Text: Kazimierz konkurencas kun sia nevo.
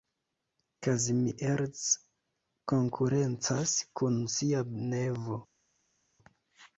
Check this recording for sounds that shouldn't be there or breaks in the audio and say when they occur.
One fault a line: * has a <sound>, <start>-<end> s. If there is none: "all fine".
all fine